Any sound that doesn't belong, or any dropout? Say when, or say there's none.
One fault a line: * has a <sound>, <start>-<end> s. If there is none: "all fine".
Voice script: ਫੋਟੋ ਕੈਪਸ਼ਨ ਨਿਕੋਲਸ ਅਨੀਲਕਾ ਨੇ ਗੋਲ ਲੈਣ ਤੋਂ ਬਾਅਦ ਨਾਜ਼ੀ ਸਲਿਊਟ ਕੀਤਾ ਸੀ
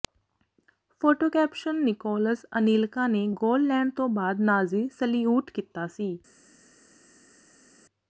all fine